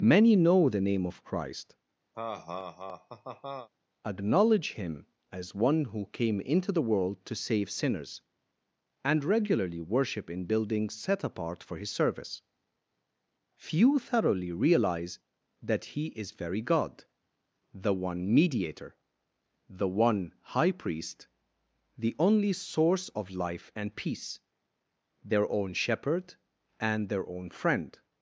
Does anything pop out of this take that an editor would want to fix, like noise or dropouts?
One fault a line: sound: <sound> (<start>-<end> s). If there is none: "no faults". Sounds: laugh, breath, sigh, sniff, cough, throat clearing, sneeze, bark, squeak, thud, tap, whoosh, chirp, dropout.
sound: laugh (2.1-3.7 s)